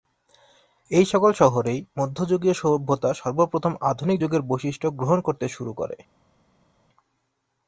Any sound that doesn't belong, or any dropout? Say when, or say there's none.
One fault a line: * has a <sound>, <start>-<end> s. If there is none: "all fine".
all fine